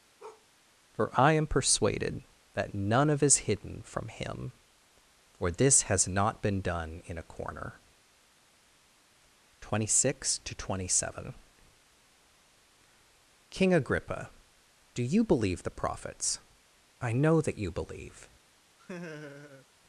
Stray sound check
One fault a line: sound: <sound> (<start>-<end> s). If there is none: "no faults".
sound: bark (0.2-0.5 s)
sound: laugh (18.8-19.7 s)